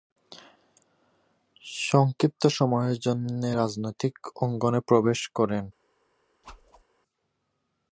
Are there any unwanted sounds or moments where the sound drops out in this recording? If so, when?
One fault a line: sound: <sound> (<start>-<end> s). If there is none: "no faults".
sound: whoosh (6.4-6.8 s)